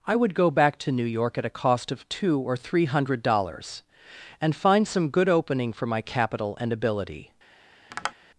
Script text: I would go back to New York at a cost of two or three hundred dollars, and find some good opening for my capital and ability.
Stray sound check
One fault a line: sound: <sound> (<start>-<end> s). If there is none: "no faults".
sound: tap (7.9-8.1 s)